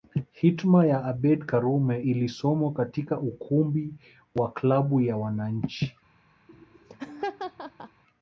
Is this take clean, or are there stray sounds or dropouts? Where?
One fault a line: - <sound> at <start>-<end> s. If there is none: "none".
- laugh at 6.5-8.0 s